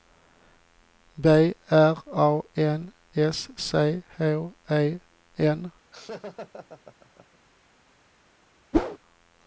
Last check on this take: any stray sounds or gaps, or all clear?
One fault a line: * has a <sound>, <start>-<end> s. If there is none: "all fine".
* has a laugh, 5.9-7.4 s
* has a whoosh, 8.7-9.0 s